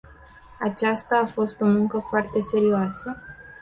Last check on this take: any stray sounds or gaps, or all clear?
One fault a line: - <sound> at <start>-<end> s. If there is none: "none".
none